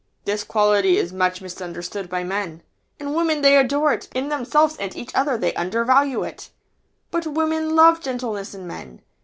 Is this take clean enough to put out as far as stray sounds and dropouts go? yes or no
yes